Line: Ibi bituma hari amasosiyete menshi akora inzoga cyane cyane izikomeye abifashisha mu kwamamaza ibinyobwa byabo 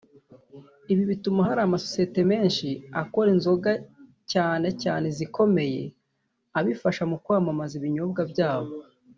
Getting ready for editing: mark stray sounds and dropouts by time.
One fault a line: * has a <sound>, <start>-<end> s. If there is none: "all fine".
all fine